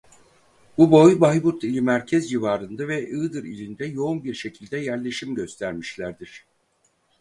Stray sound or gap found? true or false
false